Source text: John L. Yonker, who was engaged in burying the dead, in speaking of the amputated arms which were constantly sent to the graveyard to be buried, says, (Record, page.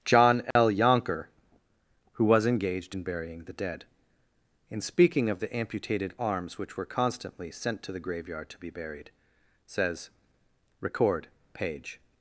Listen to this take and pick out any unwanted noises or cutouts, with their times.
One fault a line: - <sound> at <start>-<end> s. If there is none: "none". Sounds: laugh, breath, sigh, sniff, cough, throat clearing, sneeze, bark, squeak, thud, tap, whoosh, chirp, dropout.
- dropout at 0.5-0.6 s